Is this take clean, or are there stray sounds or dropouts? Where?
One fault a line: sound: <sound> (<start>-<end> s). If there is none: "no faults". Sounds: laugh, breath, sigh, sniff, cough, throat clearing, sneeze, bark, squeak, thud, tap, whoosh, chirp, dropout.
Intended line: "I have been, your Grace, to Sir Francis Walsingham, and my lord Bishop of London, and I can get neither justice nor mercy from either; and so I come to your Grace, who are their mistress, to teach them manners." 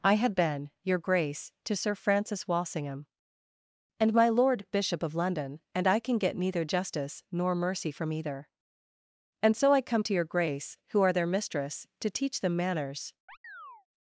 sound: chirp (13.3-13.9 s)